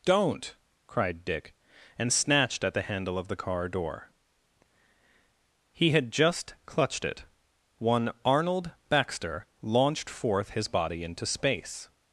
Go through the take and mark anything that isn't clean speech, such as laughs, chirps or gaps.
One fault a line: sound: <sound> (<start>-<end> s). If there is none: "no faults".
no faults